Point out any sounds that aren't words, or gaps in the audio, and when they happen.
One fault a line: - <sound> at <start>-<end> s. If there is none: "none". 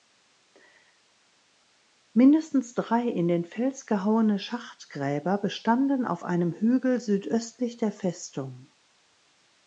none